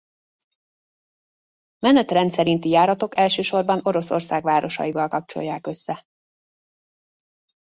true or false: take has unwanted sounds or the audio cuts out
false